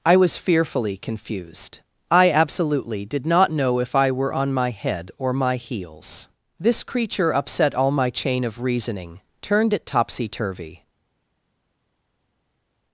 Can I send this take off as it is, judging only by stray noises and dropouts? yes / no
yes